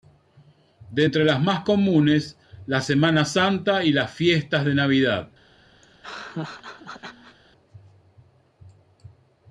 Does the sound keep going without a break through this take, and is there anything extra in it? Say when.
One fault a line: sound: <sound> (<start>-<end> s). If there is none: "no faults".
sound: laugh (5.8-7.4 s)